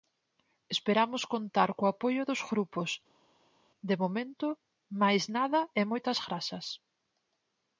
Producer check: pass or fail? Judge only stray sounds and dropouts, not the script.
pass